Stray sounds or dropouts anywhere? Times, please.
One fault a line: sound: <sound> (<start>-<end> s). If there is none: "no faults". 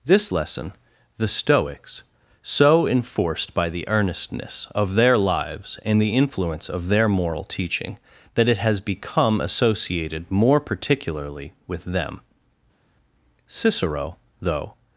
no faults